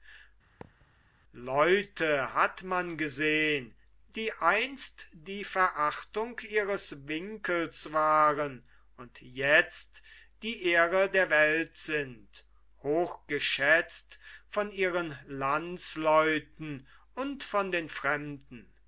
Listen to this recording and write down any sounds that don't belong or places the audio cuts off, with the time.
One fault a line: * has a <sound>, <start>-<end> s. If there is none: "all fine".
* has a thud, 0.6-0.9 s